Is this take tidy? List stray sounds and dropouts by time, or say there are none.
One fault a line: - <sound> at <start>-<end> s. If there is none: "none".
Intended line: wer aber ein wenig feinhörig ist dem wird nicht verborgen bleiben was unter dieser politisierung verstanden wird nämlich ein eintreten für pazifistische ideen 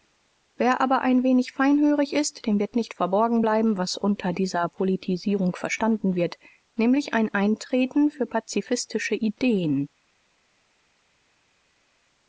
none